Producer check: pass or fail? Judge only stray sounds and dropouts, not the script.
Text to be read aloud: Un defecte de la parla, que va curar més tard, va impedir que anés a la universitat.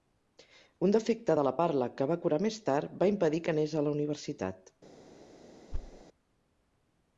fail